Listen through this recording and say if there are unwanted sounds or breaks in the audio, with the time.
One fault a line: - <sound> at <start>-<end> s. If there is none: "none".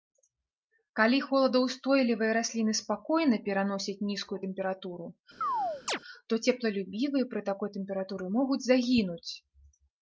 - chirp at 5.4-6.0 s